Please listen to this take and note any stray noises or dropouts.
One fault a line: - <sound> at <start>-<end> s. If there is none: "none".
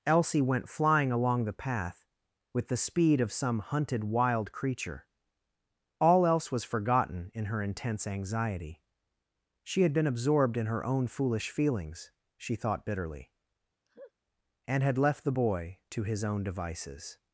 - laugh at 13.9-14.1 s